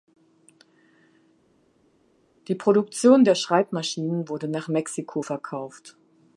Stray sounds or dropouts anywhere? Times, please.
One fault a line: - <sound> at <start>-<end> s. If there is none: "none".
none